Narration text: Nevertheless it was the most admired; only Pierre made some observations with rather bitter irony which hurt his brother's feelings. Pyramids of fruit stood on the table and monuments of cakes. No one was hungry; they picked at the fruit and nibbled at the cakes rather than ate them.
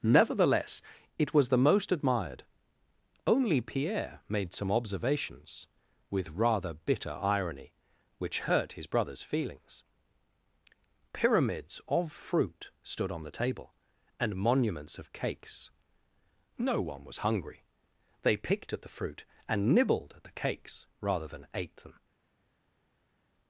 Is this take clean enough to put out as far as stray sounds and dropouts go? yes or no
yes